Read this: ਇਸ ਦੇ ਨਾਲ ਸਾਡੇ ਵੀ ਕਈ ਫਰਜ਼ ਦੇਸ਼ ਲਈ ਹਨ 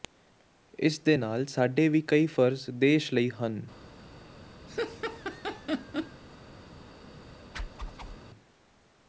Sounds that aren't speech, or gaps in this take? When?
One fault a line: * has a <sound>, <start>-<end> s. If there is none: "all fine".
* has a laugh, 4.7-6.2 s
* has a whoosh, 7.5-8.2 s